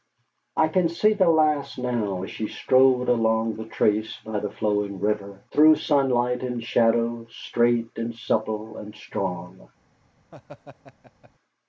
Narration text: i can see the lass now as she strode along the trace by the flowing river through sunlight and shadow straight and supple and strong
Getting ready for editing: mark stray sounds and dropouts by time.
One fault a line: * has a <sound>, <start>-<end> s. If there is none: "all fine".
* has a laugh, 10.3-11.3 s